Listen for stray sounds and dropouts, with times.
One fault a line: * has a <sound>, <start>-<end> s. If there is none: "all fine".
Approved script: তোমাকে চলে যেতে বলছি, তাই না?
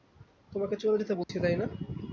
* has a dropout, 1.2-1.3 s